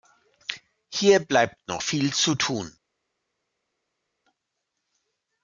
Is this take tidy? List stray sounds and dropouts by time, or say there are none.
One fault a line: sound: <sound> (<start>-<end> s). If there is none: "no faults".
no faults